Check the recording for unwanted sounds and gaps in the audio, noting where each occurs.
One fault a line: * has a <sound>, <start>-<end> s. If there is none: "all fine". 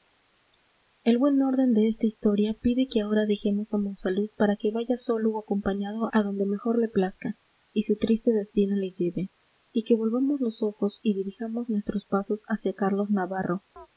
* has a chirp, 13.8-13.9 s